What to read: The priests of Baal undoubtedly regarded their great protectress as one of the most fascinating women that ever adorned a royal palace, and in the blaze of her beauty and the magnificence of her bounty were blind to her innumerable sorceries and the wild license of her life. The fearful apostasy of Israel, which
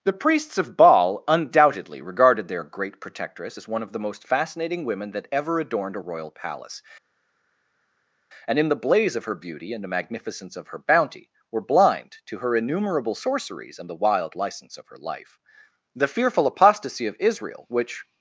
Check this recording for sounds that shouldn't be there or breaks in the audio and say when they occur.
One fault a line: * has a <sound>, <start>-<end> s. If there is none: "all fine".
all fine